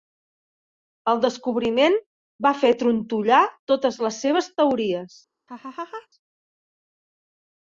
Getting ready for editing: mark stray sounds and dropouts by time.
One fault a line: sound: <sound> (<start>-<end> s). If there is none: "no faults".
sound: laugh (5.5-6.1 s)